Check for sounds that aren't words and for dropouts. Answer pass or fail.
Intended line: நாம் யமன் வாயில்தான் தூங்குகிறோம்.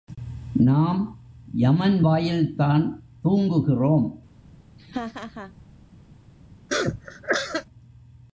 fail